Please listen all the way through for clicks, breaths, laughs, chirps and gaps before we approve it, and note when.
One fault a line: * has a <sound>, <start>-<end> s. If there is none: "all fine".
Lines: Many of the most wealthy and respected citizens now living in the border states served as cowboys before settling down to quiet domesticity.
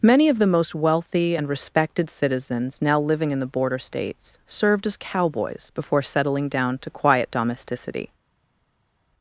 all fine